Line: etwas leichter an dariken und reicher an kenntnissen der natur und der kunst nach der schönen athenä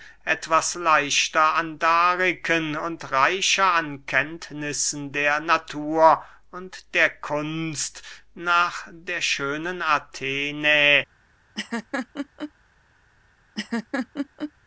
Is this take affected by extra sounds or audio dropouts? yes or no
yes